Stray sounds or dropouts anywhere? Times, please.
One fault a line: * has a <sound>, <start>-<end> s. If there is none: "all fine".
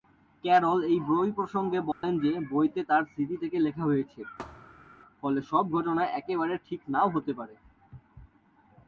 * has a dropout, 1.9-2.0 s
* has a thud, 4.4-4.9 s